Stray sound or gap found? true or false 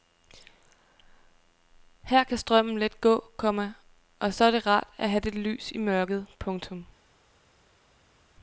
false